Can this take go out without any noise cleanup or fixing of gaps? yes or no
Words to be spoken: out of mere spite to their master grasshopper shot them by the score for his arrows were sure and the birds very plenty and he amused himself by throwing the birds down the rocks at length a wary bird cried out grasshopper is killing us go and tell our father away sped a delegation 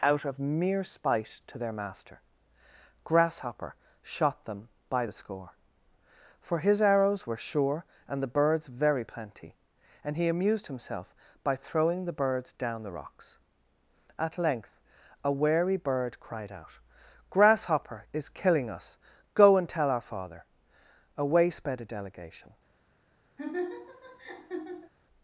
no